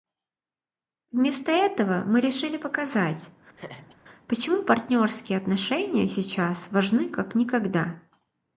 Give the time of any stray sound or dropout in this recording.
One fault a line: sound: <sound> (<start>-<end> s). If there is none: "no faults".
sound: laugh (3.6-4.0 s)